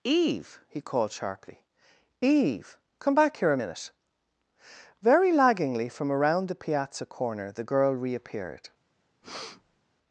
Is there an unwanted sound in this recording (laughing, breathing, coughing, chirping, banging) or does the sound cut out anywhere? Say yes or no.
yes